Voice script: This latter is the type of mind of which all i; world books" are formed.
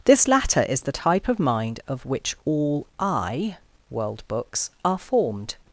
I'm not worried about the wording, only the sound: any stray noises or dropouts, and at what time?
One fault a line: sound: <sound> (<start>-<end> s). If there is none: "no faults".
no faults